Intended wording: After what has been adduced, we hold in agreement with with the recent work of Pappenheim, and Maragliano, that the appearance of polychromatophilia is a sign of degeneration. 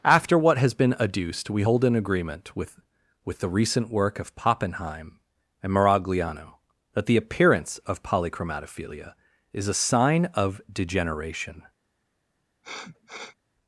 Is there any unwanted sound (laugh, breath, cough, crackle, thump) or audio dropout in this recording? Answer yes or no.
yes